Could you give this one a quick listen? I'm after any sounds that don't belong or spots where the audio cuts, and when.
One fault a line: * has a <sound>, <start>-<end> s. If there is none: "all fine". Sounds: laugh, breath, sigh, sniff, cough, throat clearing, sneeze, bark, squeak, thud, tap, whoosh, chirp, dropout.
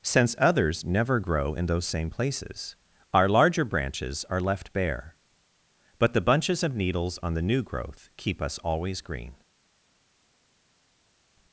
all fine